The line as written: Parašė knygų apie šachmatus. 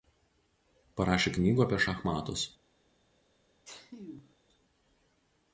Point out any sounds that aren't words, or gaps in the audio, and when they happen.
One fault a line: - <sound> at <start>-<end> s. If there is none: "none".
- sneeze at 3.6-4.3 s